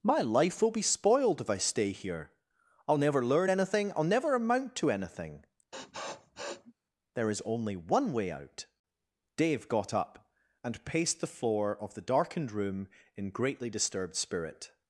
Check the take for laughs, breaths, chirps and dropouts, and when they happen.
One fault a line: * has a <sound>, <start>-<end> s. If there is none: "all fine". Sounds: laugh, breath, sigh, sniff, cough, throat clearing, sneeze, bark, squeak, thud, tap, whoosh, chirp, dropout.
* has a sniff, 5.7-6.7 s